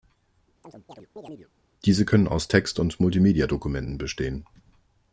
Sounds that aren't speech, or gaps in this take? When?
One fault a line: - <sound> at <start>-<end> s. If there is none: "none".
- chirp at 0.6-1.5 s